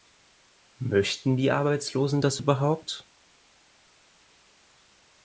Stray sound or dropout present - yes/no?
no